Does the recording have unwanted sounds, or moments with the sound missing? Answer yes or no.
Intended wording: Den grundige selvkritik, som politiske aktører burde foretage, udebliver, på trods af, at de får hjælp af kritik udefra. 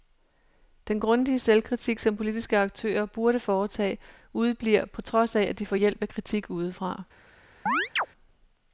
yes